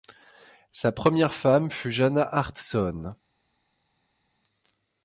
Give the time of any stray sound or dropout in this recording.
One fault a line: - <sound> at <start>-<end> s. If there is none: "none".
none